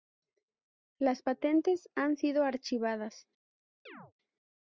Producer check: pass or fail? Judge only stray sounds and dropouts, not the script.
fail